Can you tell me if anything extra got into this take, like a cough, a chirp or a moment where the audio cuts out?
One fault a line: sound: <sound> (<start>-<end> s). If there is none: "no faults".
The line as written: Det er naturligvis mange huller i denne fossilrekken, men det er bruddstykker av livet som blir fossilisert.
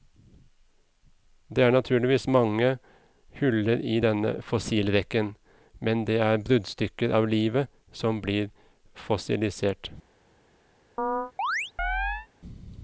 sound: chirp (11.0-12.3 s)